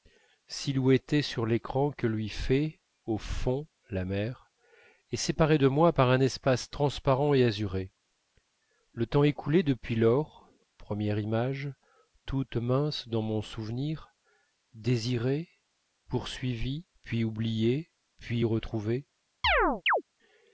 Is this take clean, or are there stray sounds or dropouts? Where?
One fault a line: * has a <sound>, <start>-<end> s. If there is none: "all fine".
* has a chirp, 19.4-20.0 s